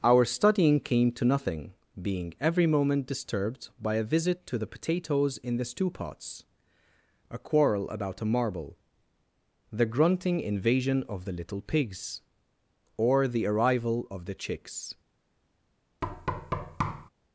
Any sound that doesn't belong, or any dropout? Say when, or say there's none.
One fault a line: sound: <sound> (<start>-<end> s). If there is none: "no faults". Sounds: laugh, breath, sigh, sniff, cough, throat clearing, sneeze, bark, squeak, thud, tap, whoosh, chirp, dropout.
sound: thud (16.0-17.1 s)